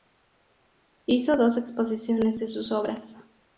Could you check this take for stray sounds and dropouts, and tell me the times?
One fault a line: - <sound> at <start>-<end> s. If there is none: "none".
none